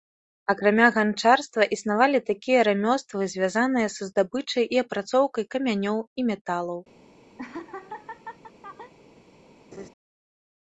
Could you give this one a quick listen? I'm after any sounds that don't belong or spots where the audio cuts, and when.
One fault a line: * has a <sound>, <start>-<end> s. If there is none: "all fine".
* has a laugh, 7.4-8.9 s
* has a laugh, 9.7-9.9 s